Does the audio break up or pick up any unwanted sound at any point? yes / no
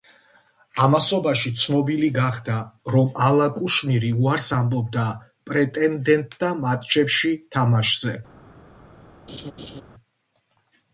yes